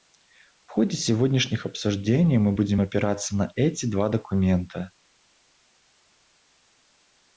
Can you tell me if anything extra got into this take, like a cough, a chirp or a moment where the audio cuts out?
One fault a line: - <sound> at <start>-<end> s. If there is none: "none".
none